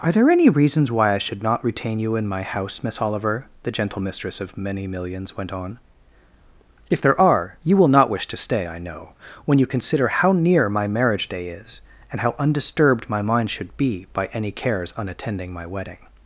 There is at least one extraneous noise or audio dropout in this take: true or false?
false